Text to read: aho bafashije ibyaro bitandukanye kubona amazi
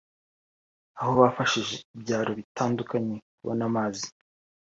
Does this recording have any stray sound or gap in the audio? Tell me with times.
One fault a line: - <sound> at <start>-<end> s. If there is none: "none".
none